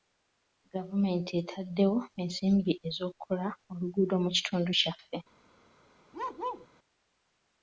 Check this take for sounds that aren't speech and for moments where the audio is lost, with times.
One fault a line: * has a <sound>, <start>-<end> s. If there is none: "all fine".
* has a bark, 6.1-6.7 s